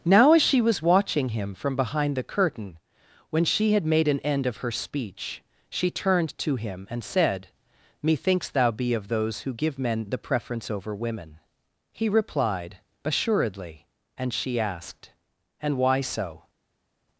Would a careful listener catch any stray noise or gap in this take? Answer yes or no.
no